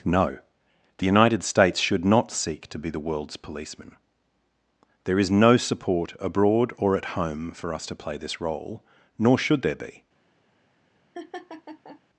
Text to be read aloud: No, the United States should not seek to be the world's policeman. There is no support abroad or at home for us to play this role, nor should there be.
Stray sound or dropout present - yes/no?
yes